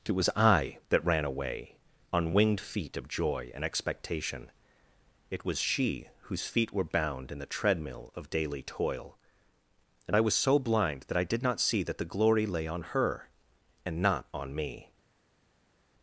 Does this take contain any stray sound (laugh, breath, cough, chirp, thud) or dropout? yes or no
no